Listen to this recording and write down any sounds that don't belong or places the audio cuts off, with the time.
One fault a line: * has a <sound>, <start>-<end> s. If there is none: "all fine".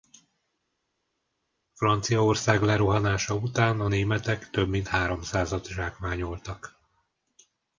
all fine